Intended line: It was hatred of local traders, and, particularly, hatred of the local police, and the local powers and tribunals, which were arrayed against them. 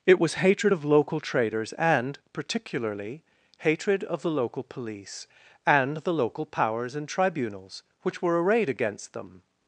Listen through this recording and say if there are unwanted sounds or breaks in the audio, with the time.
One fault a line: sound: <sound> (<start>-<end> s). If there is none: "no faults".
no faults